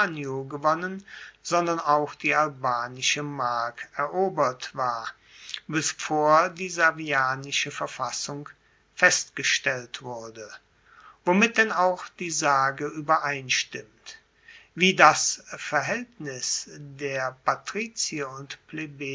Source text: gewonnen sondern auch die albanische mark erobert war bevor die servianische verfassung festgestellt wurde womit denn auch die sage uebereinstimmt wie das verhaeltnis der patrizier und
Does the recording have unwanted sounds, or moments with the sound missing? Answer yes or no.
no